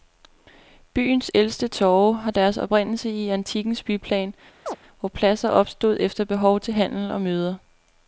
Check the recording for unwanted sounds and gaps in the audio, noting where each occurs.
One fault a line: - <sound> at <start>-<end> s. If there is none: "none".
- chirp at 4.7-4.8 s